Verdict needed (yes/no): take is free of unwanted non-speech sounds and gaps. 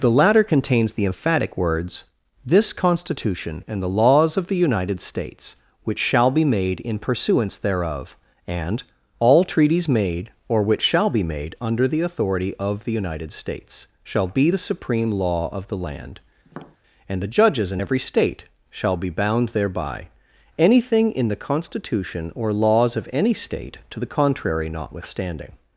no